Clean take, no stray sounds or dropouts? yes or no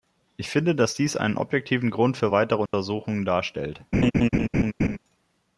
no